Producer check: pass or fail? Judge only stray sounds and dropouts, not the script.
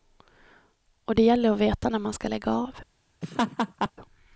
fail